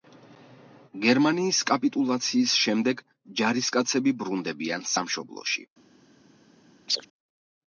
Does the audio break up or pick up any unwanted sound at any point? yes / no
yes